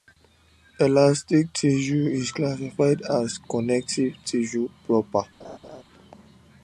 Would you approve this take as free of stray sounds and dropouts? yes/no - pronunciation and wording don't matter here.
no